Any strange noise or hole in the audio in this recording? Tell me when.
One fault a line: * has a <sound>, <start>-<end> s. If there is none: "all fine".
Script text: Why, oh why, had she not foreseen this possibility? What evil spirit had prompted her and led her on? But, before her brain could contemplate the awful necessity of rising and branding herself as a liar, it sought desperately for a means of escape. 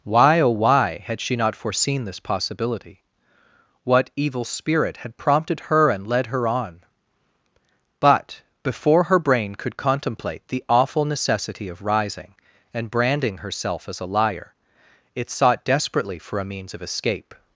all fine